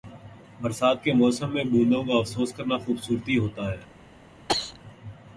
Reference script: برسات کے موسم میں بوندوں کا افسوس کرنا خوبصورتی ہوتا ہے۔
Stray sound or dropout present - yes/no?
yes